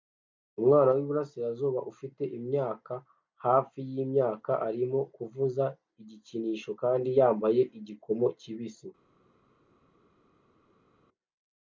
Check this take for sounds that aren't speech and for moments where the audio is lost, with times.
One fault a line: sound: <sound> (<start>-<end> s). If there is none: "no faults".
no faults